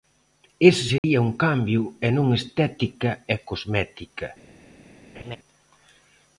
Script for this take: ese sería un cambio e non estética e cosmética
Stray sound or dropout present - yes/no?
yes